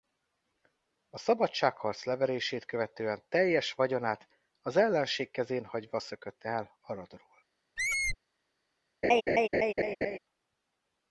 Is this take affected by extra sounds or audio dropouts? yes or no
yes